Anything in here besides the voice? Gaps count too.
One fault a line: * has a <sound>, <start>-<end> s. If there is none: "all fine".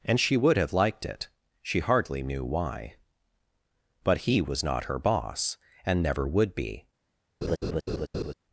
* has a laugh, 7.4-8.3 s